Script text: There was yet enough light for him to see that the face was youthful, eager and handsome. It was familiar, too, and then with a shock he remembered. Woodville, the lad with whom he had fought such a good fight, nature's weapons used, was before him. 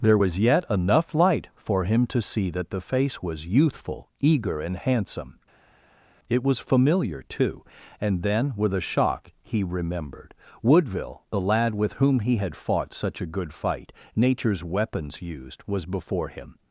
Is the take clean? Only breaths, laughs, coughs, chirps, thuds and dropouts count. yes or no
yes